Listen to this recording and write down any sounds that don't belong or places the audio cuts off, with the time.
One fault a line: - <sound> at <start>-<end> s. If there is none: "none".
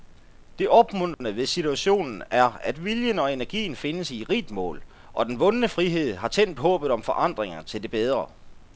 - dropout at 1.1-1.2 s